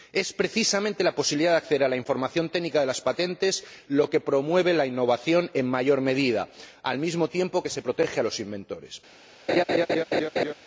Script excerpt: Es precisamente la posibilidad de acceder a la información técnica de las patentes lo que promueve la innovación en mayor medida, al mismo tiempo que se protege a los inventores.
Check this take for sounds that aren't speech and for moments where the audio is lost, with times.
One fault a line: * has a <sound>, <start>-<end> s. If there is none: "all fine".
* has a laugh, 9.5-10.5 s